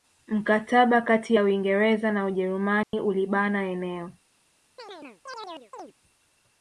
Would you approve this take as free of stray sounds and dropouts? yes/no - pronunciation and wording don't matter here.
no